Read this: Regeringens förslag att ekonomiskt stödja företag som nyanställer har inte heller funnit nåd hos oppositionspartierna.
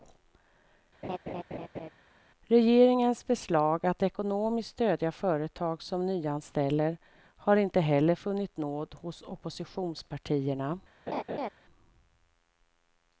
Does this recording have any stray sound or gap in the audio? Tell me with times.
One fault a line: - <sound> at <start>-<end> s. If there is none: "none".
- laugh at 1.0-1.9 s
- laugh at 11.1-11.5 s